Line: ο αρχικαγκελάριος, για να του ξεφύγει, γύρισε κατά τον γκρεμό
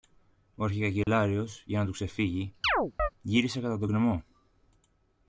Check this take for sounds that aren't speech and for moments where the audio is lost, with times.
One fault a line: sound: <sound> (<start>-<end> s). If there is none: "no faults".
sound: dropout (1.0-1.1 s)
sound: chirp (2.6-3.1 s)